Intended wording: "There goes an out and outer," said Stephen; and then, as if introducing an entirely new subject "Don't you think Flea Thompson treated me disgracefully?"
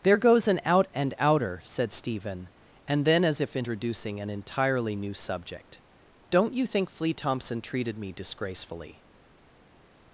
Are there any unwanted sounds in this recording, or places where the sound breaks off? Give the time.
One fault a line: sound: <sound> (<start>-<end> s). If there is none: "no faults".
no faults